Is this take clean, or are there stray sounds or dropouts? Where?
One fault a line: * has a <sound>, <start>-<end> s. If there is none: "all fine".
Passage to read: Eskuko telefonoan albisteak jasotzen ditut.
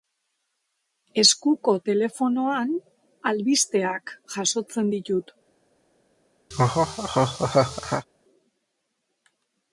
* has a laugh, 6.5-8.1 s